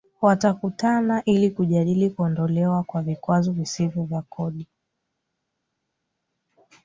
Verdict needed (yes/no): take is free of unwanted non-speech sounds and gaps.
yes